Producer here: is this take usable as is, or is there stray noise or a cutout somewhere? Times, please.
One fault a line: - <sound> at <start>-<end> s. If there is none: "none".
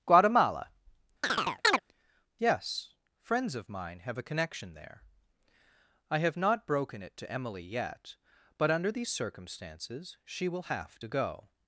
- chirp at 1.2-1.8 s